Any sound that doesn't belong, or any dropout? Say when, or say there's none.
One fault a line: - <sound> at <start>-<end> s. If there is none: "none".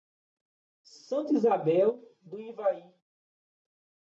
none